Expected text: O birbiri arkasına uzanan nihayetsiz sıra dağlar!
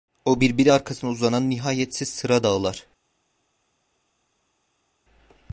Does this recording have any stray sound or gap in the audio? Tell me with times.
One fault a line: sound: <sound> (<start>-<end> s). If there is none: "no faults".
no faults